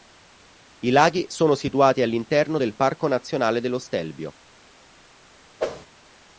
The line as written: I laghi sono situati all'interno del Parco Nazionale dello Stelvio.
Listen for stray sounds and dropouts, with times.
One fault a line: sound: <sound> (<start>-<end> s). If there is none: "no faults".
sound: whoosh (5.6-5.9 s)